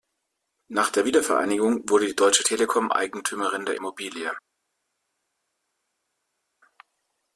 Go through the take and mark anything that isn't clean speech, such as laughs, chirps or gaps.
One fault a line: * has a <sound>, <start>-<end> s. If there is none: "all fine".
all fine